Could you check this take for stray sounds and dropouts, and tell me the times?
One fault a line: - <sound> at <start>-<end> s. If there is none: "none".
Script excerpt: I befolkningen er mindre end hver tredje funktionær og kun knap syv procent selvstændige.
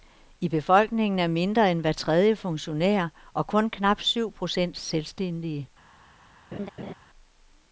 - laugh at 6.5-6.9 s